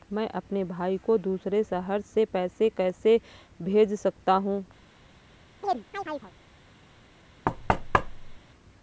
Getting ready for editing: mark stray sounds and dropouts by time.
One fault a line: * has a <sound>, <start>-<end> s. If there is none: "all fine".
* has a chirp, 5.6-6.3 s
* has a thud, 7.4-8.4 s